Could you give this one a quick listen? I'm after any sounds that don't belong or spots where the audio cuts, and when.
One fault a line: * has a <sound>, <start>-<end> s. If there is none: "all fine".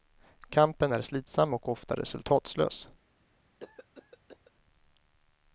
* has a cough, 3.6-4.5 s